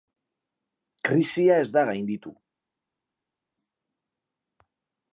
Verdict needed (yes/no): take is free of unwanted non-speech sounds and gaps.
yes